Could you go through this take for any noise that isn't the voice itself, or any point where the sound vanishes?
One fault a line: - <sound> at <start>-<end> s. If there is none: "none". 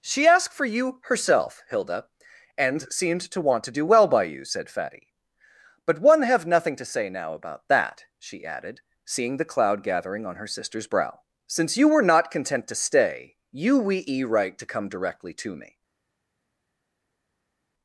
none